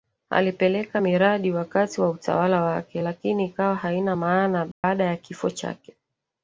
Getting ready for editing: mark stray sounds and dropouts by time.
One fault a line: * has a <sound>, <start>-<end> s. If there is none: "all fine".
* has a dropout, 4.7-4.8 s